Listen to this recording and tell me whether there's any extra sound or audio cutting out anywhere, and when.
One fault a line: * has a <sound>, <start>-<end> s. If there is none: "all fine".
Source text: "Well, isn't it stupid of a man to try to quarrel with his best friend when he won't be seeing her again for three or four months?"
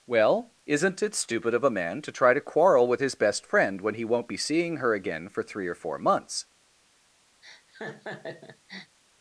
* has a laugh, 7.4-9.0 s